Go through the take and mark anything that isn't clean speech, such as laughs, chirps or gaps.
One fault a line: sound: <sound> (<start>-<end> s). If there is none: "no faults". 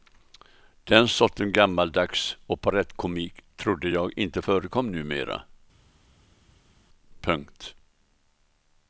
no faults